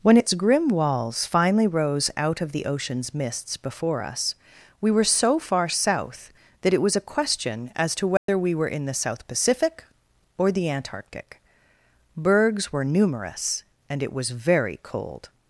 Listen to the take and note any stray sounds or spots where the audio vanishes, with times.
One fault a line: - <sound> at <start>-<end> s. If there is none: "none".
- dropout at 8.2-8.3 s